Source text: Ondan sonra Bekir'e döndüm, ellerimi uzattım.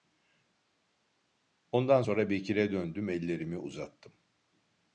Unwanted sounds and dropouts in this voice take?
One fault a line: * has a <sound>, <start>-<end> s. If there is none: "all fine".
all fine